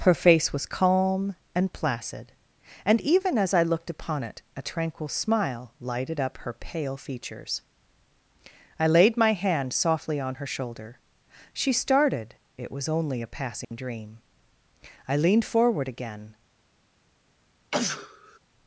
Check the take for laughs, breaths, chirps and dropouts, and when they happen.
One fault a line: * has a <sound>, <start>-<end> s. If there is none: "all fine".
* has a dropout, 13.6-13.7 s
* has a sneeze, 17.7-18.4 s